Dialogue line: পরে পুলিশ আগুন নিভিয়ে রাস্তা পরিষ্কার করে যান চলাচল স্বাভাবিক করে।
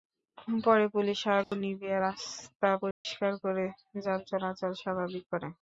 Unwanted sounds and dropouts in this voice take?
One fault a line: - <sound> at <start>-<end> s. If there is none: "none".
- dropout at 1.4-1.5 s
- dropout at 2.9-3.1 s